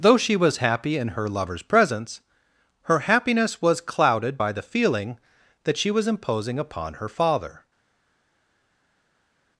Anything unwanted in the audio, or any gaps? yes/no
no